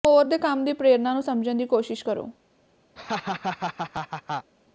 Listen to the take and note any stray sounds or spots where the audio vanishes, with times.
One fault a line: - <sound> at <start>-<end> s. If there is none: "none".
- laugh at 3.0-4.5 s